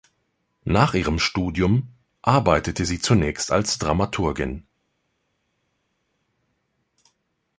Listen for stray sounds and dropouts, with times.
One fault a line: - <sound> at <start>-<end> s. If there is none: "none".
none